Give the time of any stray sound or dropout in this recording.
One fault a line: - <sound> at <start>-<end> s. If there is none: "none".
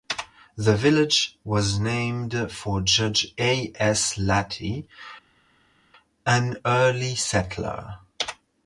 none